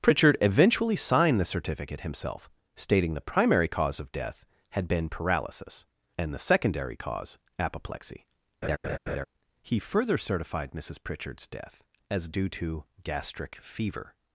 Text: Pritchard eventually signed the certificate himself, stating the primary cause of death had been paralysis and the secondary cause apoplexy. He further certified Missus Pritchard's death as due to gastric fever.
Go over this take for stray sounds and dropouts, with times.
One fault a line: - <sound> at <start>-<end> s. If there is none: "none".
- laugh at 8.6-9.3 s